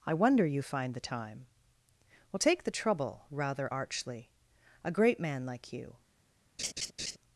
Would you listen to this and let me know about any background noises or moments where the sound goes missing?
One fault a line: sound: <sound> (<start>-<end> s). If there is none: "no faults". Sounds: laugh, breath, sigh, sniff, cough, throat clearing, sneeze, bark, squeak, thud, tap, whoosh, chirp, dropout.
sound: laugh (6.6-7.2 s)